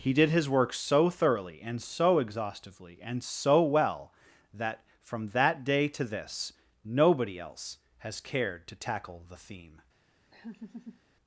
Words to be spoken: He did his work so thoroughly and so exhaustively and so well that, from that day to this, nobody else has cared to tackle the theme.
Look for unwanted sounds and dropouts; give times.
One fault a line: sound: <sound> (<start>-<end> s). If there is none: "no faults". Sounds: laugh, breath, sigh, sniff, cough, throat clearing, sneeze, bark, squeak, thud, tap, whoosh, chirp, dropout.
sound: laugh (10.3-11.0 s)